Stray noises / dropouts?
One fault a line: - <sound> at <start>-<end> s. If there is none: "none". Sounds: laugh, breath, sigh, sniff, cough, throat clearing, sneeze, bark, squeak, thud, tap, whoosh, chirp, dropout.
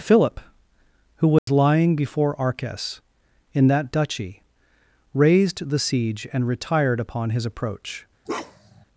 - dropout at 1.4-1.5 s
- bark at 8.3-8.9 s